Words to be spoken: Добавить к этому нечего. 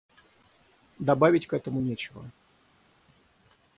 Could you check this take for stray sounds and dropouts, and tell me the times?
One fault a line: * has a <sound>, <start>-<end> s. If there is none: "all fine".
all fine